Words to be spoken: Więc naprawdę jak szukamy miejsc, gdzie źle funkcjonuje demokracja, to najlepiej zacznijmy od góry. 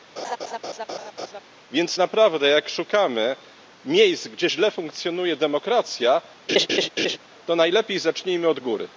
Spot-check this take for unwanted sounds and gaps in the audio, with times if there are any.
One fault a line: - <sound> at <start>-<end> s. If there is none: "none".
- laugh at 0.2-1.4 s
- laugh at 6.5-7.2 s